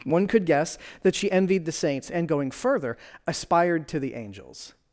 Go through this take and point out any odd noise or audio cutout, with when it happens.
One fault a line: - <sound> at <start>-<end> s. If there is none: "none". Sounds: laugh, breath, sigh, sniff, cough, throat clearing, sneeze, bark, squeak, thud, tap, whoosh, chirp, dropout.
none